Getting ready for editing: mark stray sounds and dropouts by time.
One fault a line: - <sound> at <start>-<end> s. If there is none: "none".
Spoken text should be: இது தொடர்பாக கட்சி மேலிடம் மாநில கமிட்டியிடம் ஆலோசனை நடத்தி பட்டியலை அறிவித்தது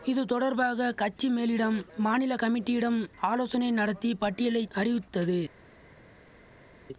none